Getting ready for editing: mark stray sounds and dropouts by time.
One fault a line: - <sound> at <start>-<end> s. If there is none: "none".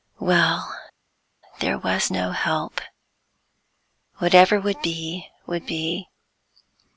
none